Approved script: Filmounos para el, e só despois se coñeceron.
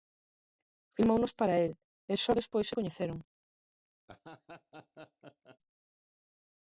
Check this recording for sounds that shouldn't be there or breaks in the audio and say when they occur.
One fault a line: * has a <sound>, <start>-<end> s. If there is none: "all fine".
* has a laugh, 4.1-5.6 s